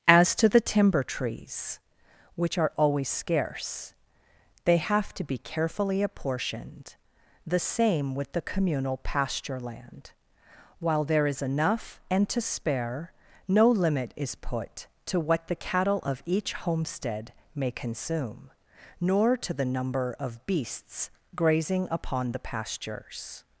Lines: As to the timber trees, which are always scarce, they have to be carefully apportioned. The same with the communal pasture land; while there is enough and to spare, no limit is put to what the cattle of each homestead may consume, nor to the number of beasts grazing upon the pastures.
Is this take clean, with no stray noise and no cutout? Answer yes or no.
yes